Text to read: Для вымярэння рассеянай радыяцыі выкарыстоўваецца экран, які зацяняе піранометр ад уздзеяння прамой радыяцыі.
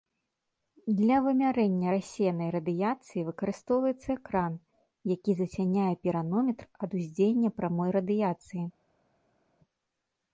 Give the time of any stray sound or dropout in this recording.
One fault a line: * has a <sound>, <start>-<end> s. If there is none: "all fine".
all fine